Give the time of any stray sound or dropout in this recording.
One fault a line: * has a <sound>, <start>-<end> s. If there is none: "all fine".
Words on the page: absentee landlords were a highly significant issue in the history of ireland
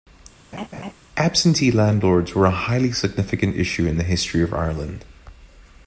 * has a laugh, 0.5-0.9 s